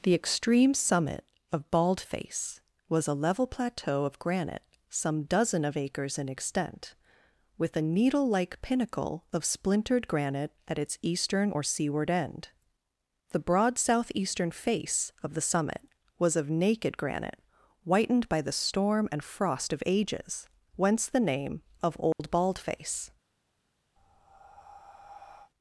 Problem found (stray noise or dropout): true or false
true